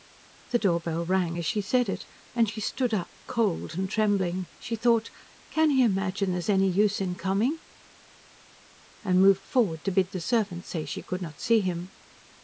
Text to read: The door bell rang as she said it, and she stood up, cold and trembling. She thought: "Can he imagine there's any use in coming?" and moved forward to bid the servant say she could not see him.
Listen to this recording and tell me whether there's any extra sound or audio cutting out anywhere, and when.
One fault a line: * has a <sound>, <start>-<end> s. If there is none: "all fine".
all fine